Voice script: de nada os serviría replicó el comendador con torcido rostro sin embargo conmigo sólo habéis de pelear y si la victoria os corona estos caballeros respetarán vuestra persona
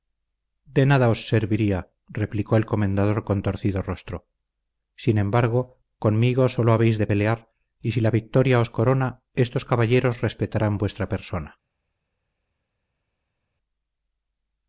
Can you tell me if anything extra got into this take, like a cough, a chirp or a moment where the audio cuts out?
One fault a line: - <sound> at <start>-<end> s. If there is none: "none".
none